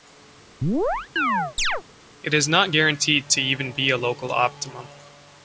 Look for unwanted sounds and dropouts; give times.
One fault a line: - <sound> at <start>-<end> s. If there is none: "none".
- chirp at 0.6-1.8 s